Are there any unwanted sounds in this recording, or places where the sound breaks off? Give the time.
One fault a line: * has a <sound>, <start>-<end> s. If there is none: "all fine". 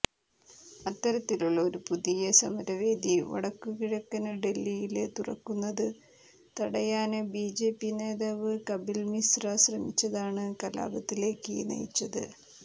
all fine